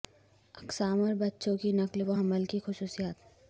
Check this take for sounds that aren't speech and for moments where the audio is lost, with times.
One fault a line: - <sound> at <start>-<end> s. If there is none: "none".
none